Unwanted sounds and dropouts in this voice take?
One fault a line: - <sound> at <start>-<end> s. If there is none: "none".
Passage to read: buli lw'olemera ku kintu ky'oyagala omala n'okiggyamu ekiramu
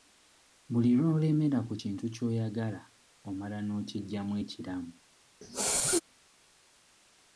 - sneeze at 5.4-6.0 s